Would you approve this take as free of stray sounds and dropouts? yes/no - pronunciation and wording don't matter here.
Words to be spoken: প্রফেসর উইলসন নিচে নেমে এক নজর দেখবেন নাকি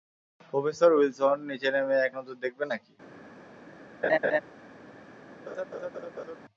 no